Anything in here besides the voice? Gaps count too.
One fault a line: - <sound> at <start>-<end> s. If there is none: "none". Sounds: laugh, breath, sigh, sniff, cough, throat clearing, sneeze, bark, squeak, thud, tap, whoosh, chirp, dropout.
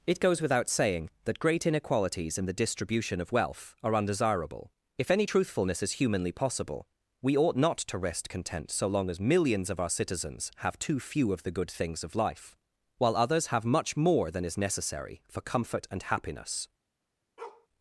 - bark at 17.4-17.7 s